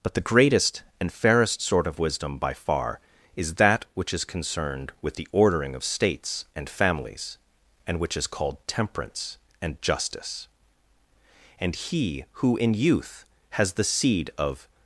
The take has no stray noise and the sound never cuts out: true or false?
true